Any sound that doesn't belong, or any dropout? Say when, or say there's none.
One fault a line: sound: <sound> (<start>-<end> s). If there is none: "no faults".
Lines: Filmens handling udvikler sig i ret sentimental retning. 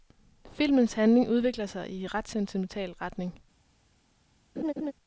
sound: laugh (4.6-4.9 s)